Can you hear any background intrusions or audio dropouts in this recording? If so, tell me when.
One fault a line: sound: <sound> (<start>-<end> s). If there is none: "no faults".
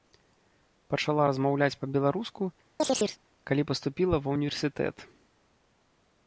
sound: chirp (2.8-3.2 s)